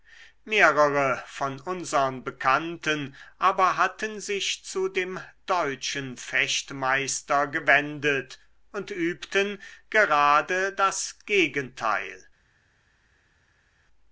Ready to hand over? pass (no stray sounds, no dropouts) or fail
pass